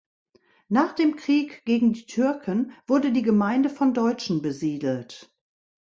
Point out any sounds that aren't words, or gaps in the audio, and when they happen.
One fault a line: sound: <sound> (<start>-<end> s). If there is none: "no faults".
no faults